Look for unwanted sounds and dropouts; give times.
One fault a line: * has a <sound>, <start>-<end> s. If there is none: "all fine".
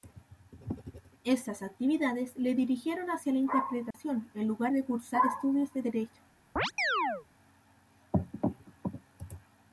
* has a dropout, 3.9-3.9 s
* has a chirp, 6.6-7.3 s